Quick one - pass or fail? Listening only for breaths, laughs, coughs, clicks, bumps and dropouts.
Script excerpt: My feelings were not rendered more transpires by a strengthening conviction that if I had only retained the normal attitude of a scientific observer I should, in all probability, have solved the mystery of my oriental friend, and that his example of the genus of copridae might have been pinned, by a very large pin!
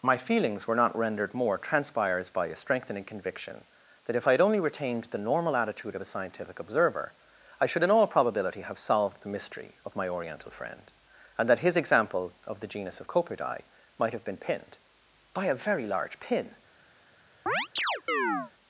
fail